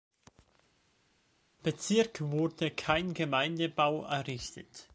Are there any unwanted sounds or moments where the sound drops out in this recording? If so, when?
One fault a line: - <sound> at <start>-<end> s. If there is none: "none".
none